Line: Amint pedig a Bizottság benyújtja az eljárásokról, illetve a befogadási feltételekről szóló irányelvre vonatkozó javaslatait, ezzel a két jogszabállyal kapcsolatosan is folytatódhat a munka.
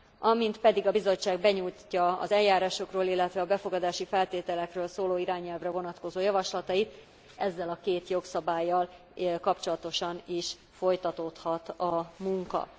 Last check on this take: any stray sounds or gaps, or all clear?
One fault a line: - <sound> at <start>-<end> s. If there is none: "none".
none